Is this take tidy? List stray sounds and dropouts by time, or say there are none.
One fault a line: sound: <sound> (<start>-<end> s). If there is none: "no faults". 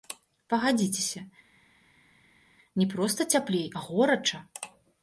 no faults